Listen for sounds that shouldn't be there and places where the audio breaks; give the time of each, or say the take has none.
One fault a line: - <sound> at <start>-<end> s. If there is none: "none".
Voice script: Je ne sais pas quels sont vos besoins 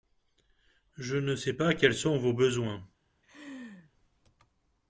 - laugh at 3.2-3.9 s